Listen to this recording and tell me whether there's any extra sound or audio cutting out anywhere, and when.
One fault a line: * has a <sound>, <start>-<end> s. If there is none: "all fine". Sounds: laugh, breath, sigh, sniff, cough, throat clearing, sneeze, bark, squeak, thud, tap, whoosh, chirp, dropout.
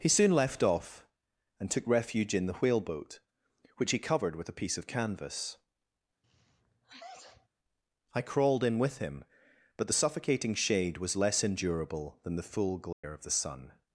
* has a sneeze, 6.2-7.5 s
* has a dropout, 12.9-13.0 s